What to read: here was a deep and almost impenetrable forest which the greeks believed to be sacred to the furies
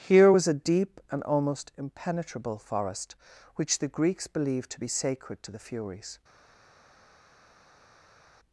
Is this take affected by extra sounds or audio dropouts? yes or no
no